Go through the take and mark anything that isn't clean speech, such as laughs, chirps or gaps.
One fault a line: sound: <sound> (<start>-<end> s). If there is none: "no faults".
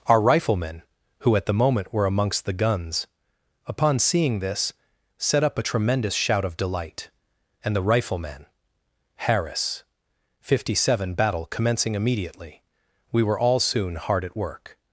no faults